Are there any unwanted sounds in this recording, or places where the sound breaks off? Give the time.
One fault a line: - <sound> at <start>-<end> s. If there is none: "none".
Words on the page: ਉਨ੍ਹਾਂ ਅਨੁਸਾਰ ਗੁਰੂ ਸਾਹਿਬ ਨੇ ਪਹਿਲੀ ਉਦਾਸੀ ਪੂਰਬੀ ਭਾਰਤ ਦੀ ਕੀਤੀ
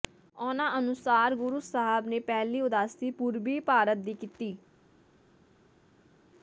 none